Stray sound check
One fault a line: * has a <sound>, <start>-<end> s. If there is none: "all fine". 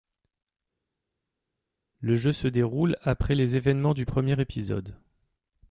all fine